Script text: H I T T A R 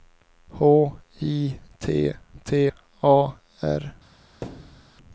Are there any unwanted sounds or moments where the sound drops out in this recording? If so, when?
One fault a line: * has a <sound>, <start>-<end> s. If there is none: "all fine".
* has a thud, 4.4-4.9 s